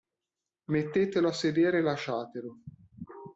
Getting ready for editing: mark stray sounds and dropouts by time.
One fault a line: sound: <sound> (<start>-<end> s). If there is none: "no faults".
no faults